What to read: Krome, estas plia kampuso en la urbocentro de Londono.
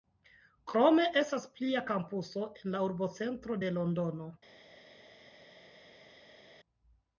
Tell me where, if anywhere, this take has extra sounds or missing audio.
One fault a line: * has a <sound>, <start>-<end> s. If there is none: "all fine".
all fine